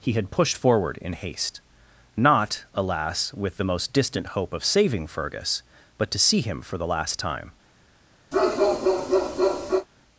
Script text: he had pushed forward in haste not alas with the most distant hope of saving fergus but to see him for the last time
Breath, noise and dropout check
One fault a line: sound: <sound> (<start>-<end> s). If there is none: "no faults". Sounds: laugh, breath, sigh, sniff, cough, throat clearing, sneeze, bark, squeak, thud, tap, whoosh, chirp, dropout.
sound: bark (8.3-9.9 s)